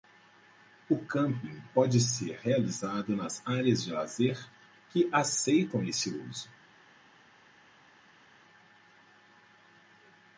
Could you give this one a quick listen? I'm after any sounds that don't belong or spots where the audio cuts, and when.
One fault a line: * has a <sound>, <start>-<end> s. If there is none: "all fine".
all fine